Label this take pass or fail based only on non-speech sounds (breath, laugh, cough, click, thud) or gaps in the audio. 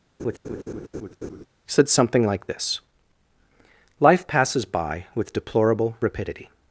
fail